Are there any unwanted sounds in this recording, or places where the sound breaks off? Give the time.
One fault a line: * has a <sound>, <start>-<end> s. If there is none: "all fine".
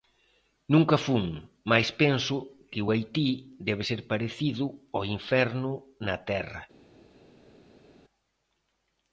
all fine